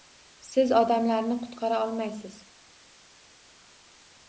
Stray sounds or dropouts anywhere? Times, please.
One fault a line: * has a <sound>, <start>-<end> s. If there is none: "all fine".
all fine